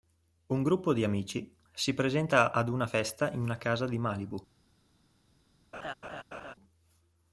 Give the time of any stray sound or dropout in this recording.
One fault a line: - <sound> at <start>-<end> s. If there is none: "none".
- laugh at 5.7-6.5 s